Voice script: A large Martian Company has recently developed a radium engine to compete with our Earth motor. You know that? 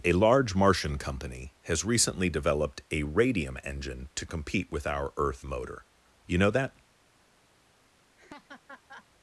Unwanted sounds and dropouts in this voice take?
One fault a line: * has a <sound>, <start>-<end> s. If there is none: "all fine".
* has a laugh, 8.2-9.1 s